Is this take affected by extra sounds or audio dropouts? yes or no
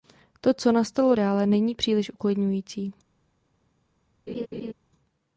yes